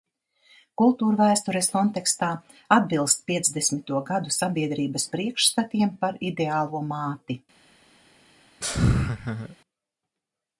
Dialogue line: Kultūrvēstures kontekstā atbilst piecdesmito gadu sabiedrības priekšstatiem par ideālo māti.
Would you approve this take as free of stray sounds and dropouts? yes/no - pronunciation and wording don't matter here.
no